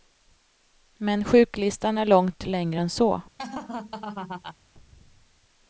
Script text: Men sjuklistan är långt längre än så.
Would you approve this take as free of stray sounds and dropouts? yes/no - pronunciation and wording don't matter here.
no